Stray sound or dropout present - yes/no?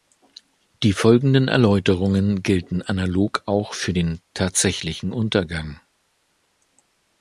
no